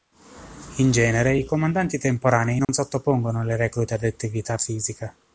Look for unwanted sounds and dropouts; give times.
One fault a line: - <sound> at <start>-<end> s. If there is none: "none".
- dropout at 2.6-2.7 s